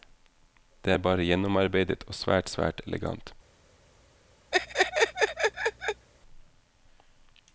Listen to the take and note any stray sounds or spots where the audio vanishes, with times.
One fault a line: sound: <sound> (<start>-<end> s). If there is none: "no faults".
sound: laugh (4.5-6.1 s)